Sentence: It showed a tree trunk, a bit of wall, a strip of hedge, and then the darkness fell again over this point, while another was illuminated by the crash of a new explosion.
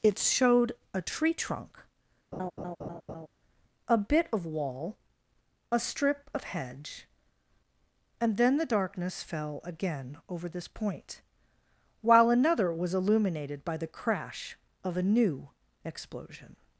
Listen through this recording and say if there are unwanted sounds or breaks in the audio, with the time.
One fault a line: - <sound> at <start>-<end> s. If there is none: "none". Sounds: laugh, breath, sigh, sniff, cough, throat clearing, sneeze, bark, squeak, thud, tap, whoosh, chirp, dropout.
- laugh at 2.3-3.3 s